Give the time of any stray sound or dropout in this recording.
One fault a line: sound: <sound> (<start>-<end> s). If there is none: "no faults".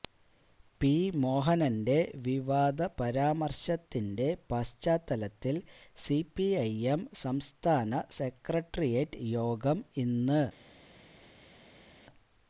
no faults